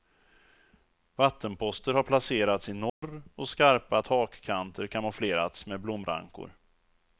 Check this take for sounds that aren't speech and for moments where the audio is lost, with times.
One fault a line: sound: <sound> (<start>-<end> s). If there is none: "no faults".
sound: dropout (2.9-3.0 s)